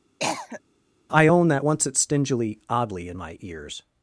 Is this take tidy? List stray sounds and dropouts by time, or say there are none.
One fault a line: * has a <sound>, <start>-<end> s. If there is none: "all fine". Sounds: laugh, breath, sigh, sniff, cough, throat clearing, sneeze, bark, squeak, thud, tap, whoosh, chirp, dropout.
* has a cough, 0.2-0.6 s